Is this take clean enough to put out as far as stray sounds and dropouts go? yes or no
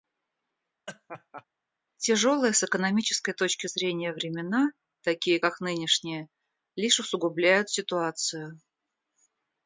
no